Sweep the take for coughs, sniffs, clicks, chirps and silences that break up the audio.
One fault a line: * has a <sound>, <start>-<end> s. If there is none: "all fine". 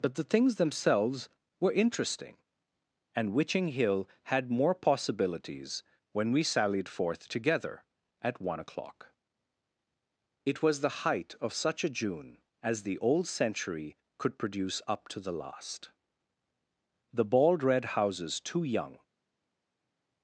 all fine